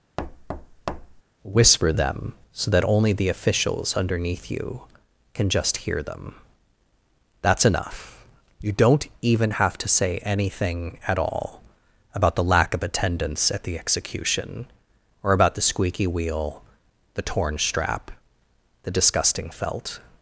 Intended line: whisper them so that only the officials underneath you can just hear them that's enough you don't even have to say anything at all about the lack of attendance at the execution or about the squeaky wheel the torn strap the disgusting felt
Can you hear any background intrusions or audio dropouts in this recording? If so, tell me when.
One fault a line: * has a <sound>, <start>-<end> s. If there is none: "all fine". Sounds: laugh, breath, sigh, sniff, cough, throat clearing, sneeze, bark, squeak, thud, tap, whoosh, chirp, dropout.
* has a thud, 0.2-1.2 s